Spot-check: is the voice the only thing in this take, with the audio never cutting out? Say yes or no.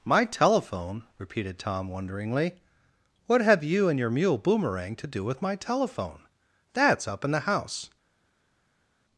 yes